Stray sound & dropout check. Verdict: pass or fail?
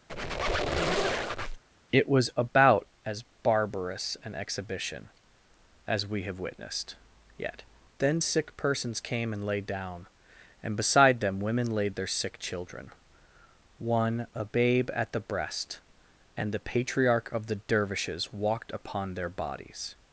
fail